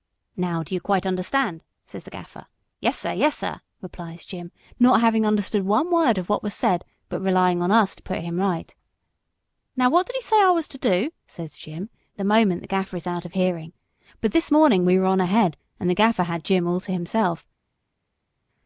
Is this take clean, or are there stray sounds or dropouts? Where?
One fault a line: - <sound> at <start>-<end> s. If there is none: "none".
none